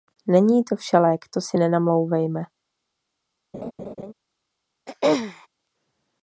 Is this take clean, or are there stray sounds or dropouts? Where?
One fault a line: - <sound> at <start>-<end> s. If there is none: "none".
- laugh at 3.5-4.1 s
- throat clearing at 4.9-5.5 s